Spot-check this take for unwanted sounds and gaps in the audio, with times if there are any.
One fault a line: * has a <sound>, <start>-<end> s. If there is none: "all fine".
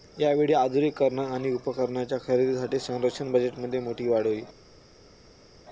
all fine